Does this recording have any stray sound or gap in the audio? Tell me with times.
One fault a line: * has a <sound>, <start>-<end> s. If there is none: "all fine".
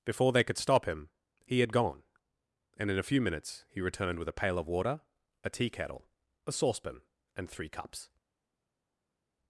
all fine